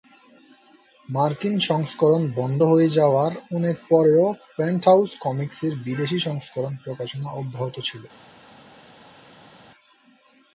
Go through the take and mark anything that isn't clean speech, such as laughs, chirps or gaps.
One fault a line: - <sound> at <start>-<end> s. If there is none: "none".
none